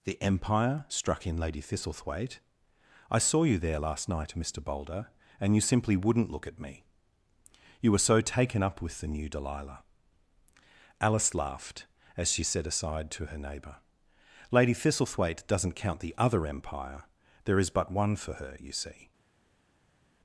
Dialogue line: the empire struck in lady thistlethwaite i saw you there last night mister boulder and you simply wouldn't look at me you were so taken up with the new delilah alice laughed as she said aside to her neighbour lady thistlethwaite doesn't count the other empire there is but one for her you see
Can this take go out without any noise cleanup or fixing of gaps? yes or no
yes